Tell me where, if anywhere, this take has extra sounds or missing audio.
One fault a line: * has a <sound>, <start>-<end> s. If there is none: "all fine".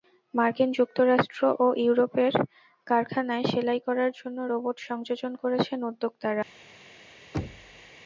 * has a thud, 7.3-7.9 s